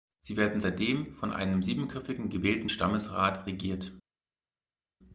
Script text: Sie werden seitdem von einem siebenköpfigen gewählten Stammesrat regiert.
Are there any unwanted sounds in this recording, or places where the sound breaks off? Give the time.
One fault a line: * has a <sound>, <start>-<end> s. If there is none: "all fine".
all fine